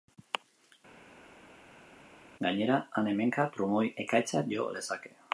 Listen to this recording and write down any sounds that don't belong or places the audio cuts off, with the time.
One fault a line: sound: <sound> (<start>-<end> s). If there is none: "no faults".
no faults